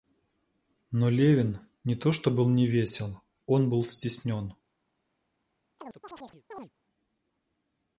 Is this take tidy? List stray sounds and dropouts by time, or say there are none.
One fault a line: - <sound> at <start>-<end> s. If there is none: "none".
- chirp at 5.8-6.7 s